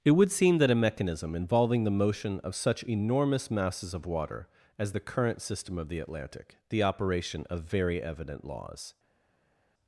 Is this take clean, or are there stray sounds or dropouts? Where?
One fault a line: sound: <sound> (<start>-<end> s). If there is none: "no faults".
no faults